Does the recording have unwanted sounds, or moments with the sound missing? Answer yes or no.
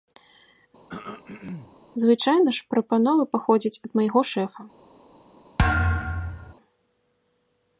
yes